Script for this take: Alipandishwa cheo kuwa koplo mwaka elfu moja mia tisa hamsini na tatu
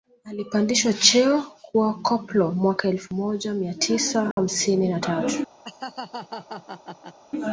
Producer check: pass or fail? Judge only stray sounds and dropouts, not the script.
fail